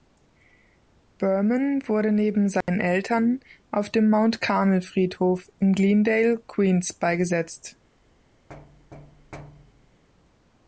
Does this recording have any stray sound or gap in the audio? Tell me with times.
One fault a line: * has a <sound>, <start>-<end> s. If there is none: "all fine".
* has a dropout, 2.6-2.7 s
* has a thud, 8.5-10.0 s